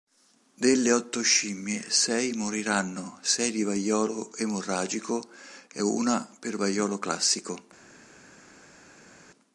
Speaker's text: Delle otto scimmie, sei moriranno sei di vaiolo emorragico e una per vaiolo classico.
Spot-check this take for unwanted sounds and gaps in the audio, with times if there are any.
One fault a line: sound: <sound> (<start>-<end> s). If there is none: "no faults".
no faults